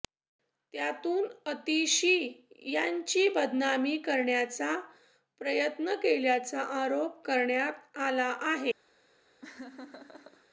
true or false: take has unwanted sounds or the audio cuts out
true